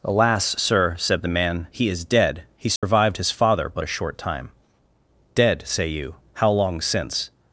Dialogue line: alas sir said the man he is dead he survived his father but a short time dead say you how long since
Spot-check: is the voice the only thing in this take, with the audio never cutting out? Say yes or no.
no